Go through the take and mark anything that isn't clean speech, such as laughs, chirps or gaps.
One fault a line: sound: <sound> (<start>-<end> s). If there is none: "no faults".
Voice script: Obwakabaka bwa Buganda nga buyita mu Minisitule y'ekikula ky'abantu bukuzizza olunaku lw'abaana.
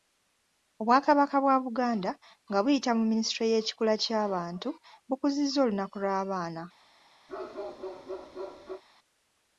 sound: bark (7.3-8.8 s)